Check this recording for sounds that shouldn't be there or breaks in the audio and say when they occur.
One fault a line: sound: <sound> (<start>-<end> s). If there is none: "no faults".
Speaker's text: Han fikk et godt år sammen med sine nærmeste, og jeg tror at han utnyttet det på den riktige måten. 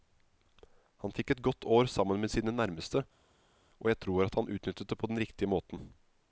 no faults